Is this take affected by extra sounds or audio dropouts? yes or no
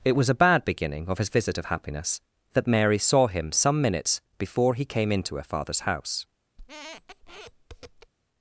yes